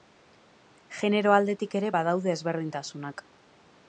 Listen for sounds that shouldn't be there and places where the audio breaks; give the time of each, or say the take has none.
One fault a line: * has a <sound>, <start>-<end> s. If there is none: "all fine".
all fine